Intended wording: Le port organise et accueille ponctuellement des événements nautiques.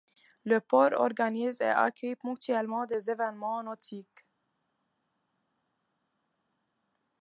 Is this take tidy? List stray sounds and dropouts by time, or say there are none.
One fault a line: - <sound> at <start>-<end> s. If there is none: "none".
none